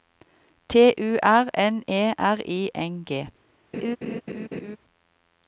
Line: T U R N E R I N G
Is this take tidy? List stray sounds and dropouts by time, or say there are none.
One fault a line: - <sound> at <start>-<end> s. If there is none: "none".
- laugh at 3.7-4.8 s